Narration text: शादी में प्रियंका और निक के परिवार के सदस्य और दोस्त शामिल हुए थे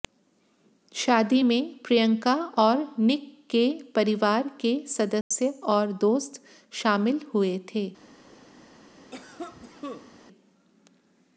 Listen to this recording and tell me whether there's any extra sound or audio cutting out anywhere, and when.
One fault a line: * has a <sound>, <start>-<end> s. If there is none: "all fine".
* has a dropout, 5.2-5.3 s
* has a cough, 9.1-10.2 s